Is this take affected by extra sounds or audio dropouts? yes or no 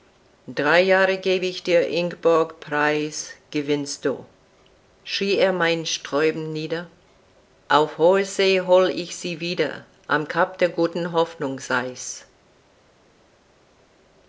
no